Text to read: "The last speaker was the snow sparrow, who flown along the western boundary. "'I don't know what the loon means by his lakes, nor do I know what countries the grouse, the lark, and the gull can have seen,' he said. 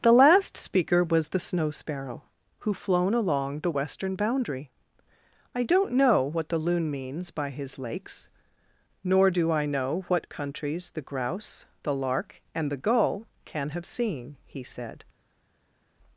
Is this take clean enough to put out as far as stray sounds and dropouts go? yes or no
yes